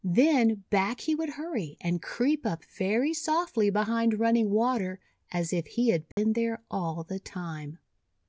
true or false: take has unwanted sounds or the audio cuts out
true